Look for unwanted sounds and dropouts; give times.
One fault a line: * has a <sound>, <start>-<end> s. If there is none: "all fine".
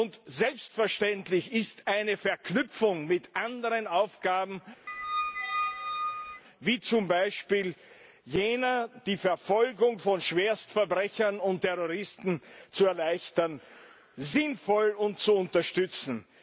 * has a squeak, 4.9-6.4 s